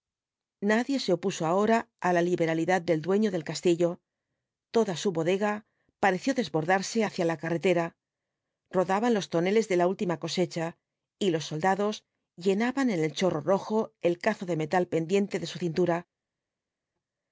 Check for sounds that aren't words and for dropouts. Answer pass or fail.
pass